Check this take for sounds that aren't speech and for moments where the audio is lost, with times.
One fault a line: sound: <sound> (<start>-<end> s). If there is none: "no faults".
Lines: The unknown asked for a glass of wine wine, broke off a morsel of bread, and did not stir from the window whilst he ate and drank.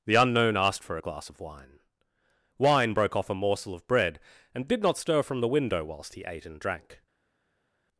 no faults